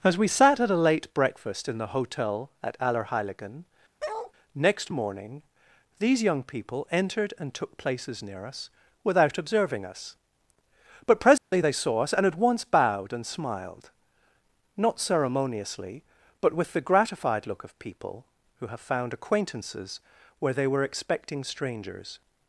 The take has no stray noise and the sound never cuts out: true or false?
false